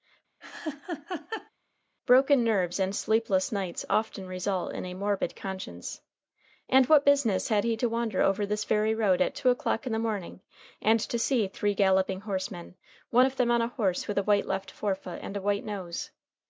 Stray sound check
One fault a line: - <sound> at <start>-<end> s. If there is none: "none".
- laugh at 0.4-1.5 s